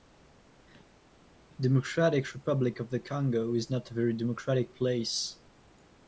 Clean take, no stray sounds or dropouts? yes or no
yes